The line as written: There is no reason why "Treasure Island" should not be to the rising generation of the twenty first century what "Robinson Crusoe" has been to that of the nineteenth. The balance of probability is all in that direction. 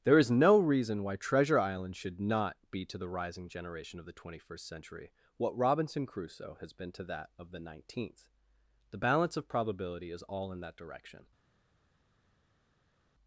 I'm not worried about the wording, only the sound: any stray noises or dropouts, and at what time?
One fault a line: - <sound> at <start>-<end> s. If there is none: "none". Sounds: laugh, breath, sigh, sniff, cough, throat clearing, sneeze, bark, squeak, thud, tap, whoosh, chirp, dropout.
none